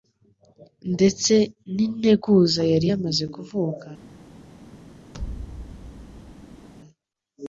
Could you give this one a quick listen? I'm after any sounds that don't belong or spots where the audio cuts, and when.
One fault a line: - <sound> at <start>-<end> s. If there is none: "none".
- thud at 5.1-6.7 s